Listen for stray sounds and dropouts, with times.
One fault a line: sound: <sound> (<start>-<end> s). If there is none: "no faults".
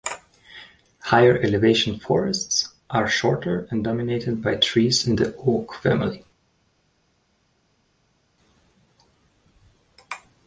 no faults